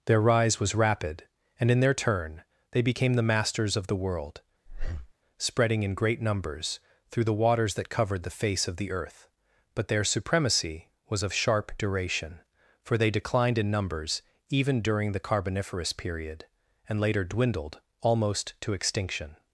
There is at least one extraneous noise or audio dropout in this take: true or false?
true